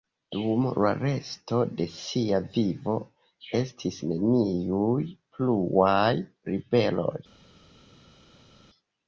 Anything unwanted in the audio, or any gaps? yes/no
no